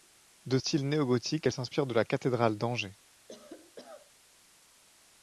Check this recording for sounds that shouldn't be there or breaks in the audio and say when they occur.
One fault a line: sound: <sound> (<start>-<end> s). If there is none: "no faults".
sound: cough (3.3-4.1 s)